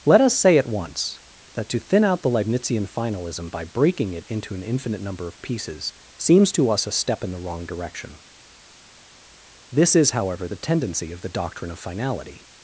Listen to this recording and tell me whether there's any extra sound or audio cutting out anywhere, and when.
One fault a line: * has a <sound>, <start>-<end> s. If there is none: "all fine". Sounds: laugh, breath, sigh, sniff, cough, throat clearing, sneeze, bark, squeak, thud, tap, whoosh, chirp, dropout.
all fine